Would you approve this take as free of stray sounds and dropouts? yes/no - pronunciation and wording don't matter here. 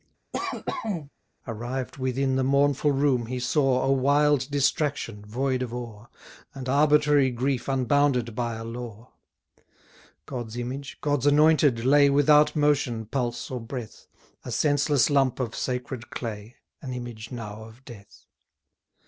no